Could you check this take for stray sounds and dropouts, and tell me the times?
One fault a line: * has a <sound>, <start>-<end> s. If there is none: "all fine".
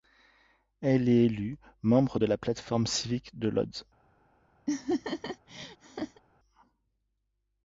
* has a laugh, 4.7-6.2 s